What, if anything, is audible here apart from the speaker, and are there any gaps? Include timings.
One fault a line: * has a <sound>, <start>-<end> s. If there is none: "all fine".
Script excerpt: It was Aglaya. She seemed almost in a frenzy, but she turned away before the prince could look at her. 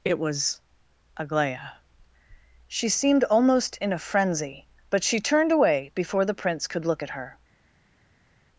all fine